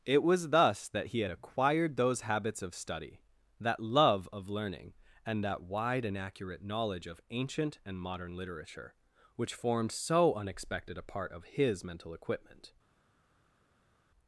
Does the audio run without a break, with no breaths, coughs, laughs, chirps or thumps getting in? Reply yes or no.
yes